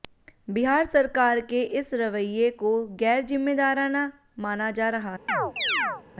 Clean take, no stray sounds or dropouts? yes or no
no